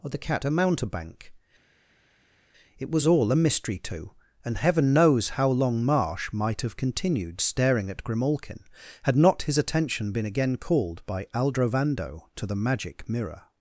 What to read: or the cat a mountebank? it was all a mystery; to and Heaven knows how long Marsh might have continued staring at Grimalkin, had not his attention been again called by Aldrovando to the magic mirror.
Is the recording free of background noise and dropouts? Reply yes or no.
yes